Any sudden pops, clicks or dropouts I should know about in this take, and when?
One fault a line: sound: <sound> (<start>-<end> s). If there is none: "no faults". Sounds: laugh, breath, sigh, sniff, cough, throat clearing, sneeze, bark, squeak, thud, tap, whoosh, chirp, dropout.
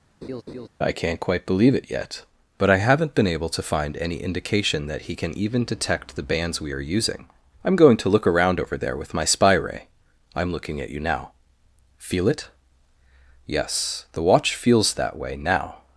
sound: laugh (0.2-0.7 s)